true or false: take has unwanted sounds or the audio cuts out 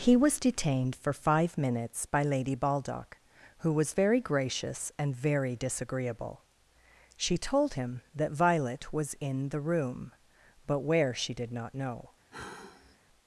true